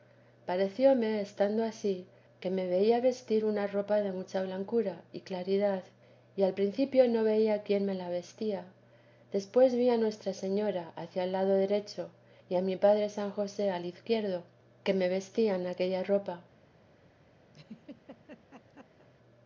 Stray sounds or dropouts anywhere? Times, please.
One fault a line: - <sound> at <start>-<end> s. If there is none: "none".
- laugh at 17.5-19.1 s